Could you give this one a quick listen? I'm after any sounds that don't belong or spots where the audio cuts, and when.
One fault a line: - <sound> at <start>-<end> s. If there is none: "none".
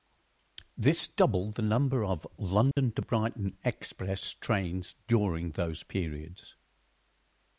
- dropout at 2.7-2.8 s